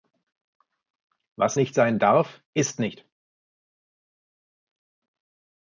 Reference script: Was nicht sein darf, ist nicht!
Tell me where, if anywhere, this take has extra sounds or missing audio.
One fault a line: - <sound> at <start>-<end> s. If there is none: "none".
none